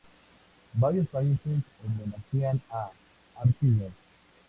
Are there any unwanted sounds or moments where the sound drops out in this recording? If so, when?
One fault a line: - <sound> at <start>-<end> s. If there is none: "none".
none